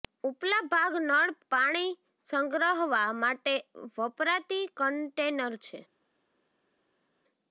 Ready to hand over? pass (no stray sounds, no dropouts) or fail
pass